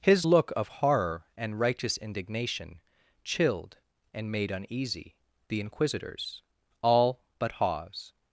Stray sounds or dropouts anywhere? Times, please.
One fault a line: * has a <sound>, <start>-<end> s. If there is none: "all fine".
all fine